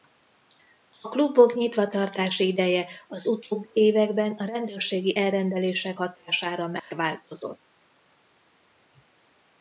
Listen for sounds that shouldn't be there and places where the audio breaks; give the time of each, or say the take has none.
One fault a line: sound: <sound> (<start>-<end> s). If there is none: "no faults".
sound: dropout (6.8-6.9 s)